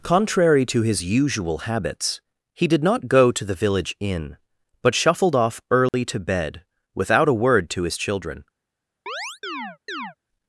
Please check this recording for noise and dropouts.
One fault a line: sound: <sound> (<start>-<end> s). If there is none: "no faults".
sound: dropout (5.9-5.9 s)
sound: chirp (9.1-10.2 s)